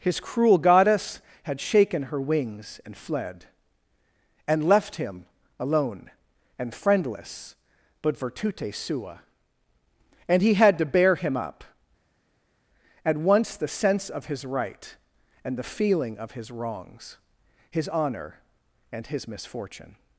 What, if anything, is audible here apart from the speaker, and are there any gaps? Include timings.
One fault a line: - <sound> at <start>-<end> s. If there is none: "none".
none